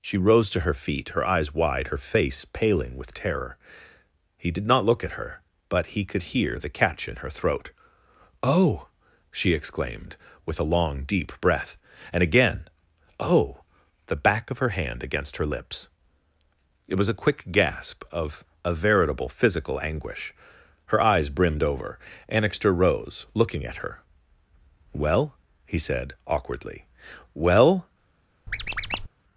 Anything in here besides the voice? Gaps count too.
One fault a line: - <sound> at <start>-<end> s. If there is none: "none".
- squeak at 28.5-29.1 s